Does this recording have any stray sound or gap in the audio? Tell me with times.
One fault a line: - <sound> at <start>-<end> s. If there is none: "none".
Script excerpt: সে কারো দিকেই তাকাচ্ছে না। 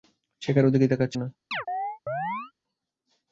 - chirp at 1.5-2.5 s